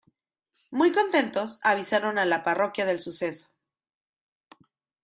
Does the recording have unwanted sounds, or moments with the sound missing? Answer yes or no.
no